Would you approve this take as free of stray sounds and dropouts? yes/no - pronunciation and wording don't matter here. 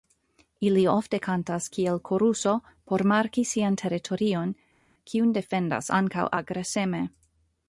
yes